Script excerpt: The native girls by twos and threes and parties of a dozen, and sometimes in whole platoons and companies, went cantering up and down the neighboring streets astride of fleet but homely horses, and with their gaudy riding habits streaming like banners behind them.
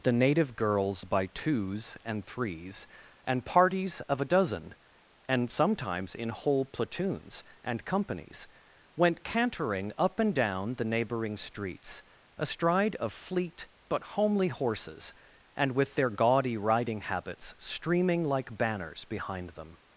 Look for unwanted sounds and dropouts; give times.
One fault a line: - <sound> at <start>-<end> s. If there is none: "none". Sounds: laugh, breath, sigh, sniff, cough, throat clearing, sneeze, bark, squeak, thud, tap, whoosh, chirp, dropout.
none